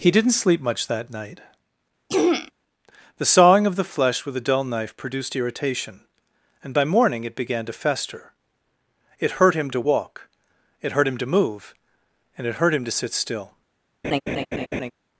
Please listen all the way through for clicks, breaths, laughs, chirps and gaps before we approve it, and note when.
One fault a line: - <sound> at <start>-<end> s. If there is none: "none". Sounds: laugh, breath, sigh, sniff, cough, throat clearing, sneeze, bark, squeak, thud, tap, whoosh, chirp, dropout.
- throat clearing at 2.1-2.5 s
- laugh at 14.0-14.9 s